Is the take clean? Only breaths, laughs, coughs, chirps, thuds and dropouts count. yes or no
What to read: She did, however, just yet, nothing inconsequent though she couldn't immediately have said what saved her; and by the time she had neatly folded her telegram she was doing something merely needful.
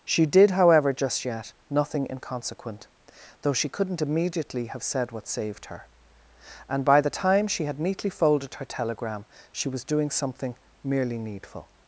yes